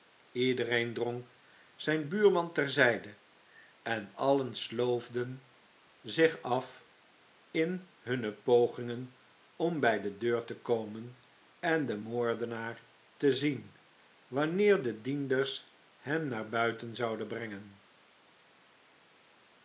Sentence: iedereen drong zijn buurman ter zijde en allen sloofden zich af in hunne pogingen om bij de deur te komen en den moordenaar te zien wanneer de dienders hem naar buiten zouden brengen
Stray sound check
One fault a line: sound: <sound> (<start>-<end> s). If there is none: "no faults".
no faults